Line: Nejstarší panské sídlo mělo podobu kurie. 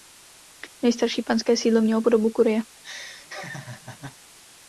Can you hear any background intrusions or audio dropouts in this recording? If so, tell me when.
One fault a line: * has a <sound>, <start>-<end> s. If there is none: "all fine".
* has a laugh, 2.8-4.2 s